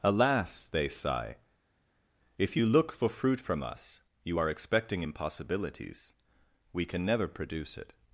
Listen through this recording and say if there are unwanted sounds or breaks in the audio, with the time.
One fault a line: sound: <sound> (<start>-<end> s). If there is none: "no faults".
no faults